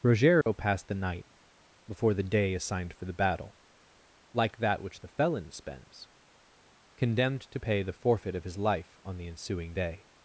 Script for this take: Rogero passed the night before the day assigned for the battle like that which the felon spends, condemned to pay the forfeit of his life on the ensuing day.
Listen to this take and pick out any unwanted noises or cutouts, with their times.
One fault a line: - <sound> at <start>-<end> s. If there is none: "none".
- dropout at 0.4-0.5 s